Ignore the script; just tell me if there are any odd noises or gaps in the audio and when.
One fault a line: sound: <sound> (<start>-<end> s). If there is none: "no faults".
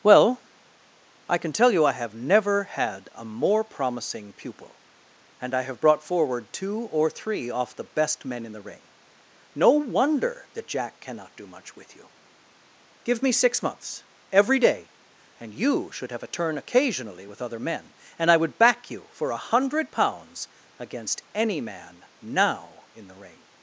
no faults